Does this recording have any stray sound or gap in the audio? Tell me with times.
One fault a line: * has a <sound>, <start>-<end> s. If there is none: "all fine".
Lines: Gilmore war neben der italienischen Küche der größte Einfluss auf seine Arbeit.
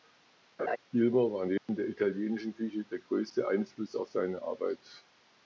* has a laugh, 0.6-0.8 s
* has a dropout, 1.6-1.7 s